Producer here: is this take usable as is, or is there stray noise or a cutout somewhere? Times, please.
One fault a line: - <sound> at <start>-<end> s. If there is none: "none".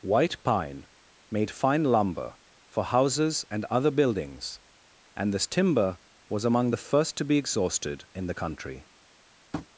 - tap at 9.5-9.7 s